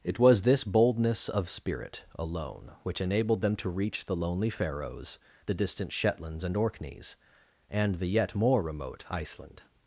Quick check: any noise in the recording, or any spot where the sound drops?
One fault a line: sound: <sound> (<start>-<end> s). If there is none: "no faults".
no faults